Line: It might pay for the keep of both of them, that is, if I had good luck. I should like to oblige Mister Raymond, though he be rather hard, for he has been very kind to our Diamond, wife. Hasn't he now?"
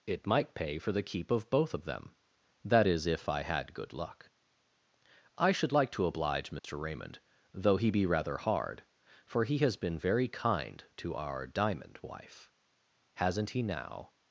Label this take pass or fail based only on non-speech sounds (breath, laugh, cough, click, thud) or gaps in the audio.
fail